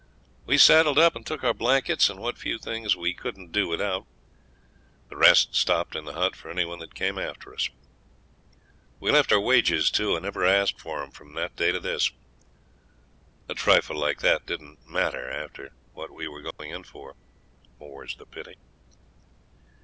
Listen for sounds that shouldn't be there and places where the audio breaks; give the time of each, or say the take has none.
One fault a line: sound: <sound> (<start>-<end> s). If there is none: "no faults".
sound: dropout (16.5-16.6 s)